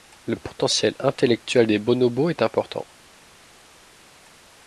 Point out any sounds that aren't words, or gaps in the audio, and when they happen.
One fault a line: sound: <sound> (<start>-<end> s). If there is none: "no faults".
no faults